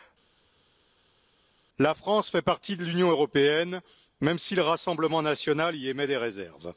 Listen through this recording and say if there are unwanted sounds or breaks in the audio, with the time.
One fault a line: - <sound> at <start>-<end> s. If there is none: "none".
none